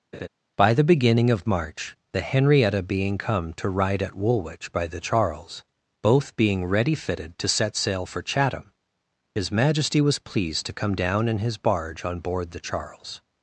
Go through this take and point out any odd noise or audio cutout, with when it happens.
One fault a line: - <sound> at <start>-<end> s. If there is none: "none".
- laugh at 0.1-0.3 s